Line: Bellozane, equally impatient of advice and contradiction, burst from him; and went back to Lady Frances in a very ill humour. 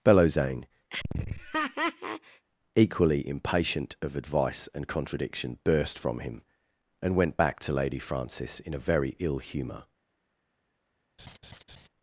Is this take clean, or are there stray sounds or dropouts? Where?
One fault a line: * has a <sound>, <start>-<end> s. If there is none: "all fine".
* has a laugh, 0.9-2.5 s
* has a laugh, 11.2-11.9 s